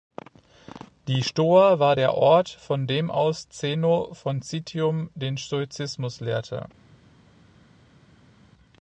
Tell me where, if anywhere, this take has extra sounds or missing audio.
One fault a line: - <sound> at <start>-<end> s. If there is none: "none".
none